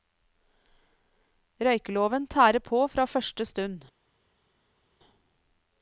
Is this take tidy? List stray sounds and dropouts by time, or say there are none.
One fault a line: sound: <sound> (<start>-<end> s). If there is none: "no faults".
no faults